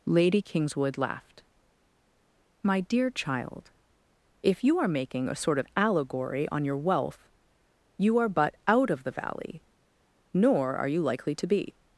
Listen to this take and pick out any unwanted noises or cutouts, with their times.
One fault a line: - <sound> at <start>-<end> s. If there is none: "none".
none